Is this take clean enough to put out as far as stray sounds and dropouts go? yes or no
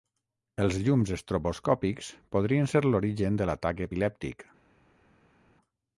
yes